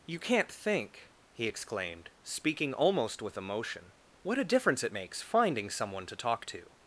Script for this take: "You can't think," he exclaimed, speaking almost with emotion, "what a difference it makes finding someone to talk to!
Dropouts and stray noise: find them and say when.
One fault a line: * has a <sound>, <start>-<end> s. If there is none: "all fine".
all fine